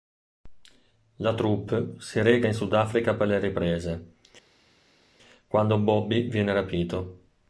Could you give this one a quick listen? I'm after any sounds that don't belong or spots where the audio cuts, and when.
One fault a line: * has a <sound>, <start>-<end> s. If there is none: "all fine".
all fine